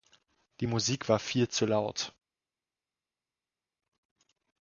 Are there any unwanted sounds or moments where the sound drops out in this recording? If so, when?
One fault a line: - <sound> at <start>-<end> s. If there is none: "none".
none